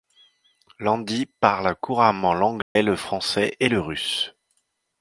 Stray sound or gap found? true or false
true